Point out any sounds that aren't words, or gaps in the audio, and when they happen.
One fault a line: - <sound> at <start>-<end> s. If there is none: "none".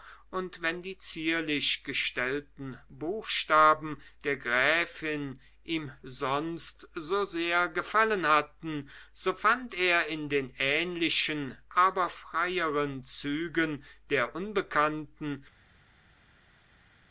none